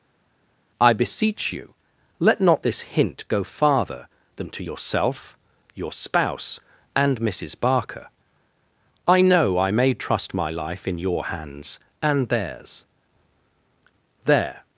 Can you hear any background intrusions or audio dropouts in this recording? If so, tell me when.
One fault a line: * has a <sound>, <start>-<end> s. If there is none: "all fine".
all fine